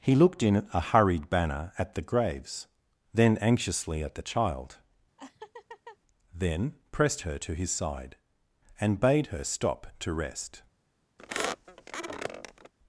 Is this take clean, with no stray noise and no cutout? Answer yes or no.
no